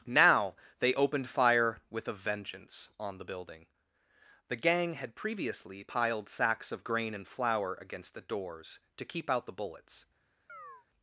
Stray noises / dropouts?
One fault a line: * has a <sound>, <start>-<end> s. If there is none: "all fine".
* has a chirp, 10.5-10.9 s